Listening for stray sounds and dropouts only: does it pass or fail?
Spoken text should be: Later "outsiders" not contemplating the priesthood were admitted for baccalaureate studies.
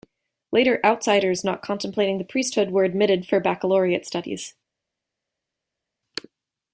pass